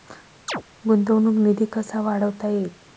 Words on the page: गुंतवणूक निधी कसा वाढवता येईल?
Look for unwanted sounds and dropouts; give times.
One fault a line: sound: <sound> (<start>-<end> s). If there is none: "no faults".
sound: chirp (0.5-0.6 s)